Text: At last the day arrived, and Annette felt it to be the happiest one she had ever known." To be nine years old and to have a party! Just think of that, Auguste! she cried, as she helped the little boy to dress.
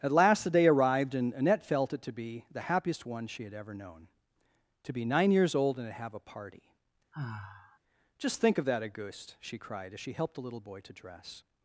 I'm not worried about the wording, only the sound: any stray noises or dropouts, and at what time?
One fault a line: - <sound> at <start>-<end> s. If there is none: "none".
- sigh at 7.1-7.8 s